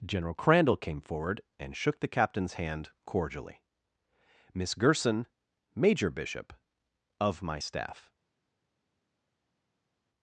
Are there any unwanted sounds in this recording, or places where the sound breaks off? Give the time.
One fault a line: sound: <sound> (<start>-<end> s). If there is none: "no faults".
no faults